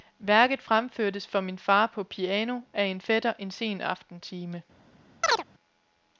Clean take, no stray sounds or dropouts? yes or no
no